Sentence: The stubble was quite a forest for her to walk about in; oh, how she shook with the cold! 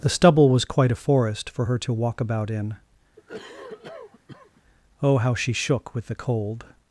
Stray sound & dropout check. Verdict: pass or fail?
fail